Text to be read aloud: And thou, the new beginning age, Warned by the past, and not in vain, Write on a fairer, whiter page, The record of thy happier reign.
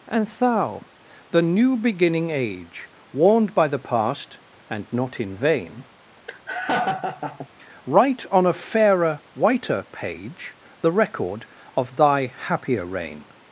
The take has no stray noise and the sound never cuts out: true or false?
false